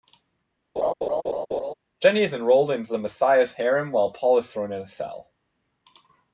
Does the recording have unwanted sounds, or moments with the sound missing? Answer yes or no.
yes